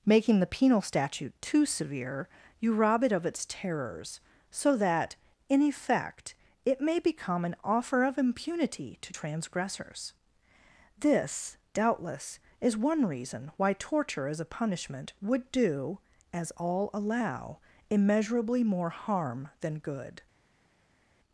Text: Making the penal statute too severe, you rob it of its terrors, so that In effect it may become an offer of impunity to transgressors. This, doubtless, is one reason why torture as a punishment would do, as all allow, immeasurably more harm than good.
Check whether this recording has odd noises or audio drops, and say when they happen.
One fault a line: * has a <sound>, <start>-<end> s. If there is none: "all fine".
all fine